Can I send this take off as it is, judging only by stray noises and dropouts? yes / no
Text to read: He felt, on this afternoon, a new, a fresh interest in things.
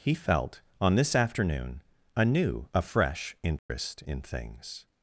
no